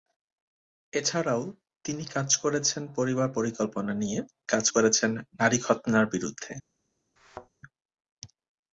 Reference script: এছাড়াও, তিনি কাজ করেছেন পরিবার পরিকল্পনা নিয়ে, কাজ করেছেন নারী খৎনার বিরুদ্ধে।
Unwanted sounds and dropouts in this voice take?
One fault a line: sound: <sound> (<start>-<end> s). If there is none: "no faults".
sound: thud (7.2-7.5 s)